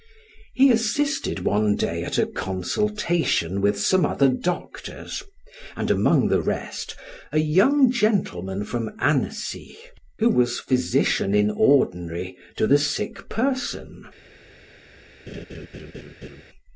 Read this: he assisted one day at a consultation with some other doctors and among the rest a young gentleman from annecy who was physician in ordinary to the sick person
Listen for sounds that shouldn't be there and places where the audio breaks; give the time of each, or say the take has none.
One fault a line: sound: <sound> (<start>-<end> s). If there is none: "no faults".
sound: laugh (15.3-16.4 s)